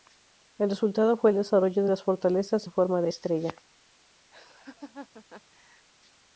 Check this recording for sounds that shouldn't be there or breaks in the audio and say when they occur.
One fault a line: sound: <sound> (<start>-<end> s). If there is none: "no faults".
sound: laugh (4.3-5.9 s)